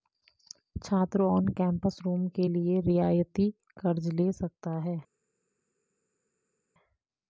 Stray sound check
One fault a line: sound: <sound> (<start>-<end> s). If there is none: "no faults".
no faults